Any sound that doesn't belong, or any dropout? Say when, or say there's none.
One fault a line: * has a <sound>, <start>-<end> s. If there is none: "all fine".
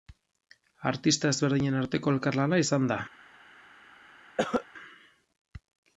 * has a cough, 4.4-4.7 s